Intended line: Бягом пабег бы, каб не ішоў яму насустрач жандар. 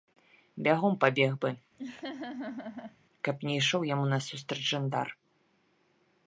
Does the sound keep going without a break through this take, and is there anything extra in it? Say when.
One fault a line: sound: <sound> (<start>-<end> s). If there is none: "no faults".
sound: laugh (1.8-3.0 s)